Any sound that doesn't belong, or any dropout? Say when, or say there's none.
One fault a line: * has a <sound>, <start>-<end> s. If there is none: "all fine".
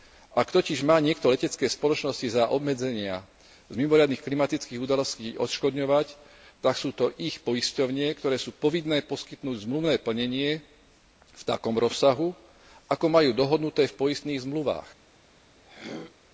* has a throat clearing, 15.6-16.1 s